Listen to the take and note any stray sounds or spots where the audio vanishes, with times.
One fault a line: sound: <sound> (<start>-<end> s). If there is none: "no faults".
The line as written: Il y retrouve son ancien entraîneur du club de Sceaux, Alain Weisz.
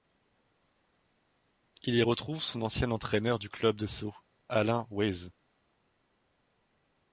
no faults